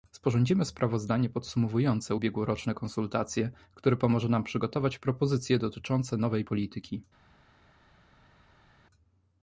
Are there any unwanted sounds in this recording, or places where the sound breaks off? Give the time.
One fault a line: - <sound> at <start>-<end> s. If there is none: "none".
none